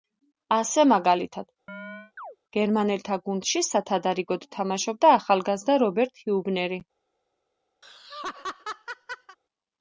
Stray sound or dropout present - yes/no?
yes